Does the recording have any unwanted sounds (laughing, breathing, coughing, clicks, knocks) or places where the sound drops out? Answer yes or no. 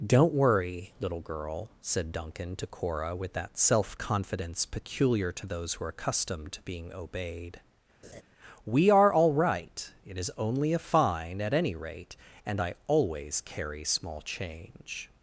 yes